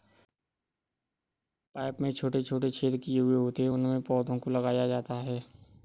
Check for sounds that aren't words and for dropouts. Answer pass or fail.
pass